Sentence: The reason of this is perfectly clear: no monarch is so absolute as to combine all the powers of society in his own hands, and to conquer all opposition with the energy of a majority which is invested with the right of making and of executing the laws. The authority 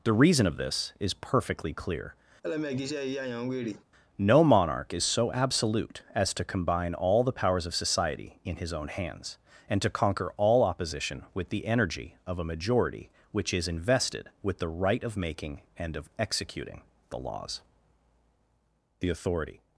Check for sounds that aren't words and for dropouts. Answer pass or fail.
fail